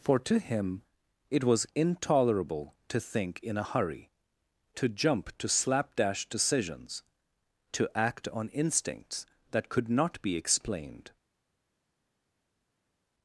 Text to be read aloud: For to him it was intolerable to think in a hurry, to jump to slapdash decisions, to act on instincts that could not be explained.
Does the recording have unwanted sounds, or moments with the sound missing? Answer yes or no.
no